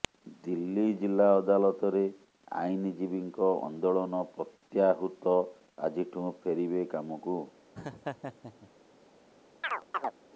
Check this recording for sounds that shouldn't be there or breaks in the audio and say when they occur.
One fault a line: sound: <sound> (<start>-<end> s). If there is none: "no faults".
sound: laugh (7.8-8.7 s)
sound: chirp (9.6-10.1 s)